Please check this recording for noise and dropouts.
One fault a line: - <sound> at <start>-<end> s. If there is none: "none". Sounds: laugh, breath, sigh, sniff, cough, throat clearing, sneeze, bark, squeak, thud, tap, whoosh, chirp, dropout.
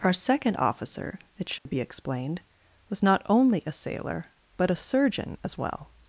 - dropout at 1.6-1.7 s